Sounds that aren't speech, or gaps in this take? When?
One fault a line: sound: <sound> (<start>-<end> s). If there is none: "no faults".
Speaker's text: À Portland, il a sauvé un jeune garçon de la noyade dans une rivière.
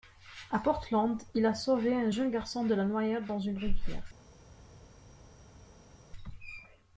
no faults